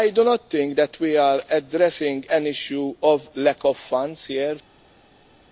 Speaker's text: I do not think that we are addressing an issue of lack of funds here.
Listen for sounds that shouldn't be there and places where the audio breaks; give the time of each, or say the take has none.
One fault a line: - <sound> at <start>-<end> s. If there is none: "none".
none